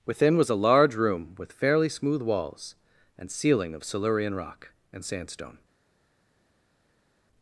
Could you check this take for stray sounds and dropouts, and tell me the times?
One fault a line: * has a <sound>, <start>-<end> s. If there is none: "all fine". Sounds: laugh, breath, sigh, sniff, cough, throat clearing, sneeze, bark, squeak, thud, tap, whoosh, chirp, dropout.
all fine